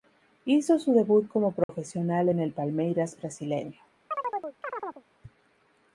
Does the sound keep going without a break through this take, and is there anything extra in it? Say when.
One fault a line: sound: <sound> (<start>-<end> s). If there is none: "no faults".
sound: dropout (1.6-1.7 s)
sound: chirp (4.1-5.0 s)